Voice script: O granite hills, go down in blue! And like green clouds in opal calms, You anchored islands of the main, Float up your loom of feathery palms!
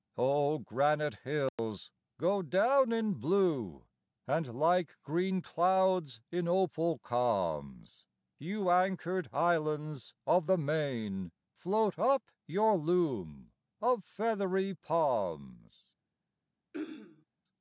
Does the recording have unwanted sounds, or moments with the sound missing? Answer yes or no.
yes